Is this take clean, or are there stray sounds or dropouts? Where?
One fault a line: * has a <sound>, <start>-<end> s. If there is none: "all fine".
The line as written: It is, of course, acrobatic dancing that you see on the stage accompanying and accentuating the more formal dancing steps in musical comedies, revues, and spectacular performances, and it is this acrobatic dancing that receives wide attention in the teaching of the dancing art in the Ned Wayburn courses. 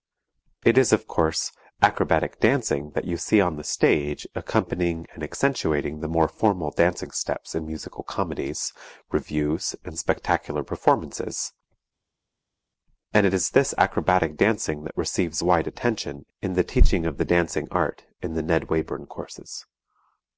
all fine